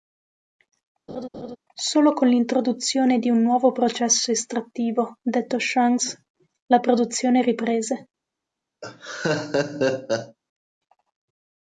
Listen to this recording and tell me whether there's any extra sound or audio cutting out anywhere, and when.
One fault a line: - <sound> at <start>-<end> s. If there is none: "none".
- laugh at 1.1-1.6 s
- laugh at 8.8-10.4 s